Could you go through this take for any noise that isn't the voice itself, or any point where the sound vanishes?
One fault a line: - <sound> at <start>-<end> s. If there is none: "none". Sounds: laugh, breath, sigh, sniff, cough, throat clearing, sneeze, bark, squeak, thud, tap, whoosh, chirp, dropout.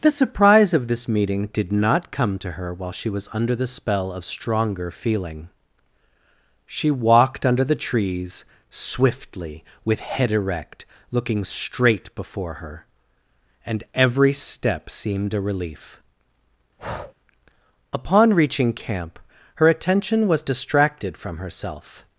- breath at 16.8-17.1 s